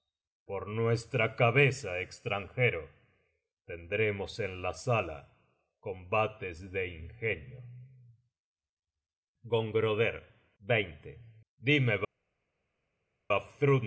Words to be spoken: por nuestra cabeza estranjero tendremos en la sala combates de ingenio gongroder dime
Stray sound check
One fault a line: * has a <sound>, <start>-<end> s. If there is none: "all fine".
all fine